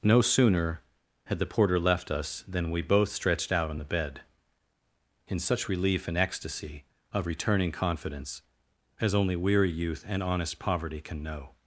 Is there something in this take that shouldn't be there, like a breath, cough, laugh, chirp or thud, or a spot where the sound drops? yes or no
no